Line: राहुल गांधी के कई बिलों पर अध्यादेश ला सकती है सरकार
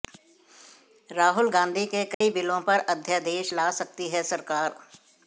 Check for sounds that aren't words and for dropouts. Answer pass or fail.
fail